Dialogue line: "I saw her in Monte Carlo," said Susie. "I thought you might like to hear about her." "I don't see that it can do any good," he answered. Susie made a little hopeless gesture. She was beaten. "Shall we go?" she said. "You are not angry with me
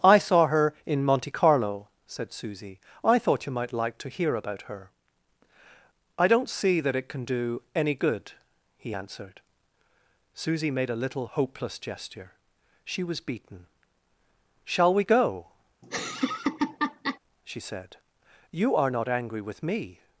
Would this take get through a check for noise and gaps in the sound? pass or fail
fail